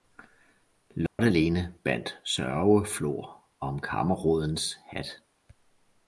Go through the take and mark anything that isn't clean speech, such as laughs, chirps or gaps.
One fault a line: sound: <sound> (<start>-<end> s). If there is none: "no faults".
sound: dropout (1.1-1.2 s)